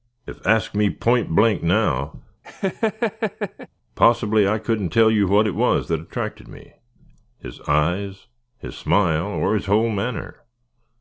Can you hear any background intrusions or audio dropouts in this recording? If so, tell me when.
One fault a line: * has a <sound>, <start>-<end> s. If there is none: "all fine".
* has a laugh, 2.4-3.7 s